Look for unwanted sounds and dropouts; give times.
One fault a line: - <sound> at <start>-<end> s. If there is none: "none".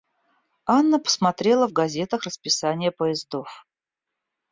none